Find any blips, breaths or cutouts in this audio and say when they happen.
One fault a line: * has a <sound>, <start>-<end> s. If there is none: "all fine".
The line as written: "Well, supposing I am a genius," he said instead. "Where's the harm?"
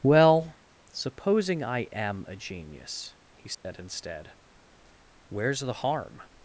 * has a dropout, 3.5-3.6 s